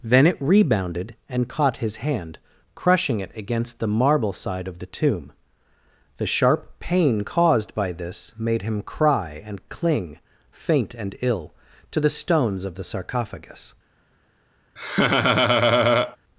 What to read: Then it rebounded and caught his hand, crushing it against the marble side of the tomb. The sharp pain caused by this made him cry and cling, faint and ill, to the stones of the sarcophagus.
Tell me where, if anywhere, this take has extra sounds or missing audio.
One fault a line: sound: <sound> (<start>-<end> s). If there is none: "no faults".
sound: laugh (14.8-16.2 s)